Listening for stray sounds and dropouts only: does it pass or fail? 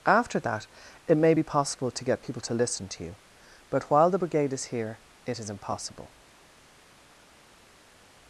pass